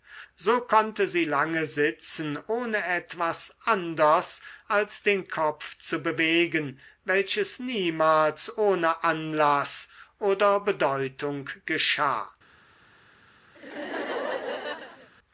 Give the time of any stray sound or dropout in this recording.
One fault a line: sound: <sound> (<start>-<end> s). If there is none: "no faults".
sound: laugh (13.5-15.1 s)